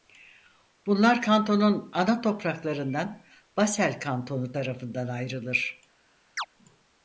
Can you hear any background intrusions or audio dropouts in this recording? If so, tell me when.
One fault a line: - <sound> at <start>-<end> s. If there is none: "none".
- chirp at 6.4-6.5 s